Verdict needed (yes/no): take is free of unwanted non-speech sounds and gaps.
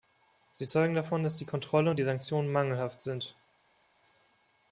yes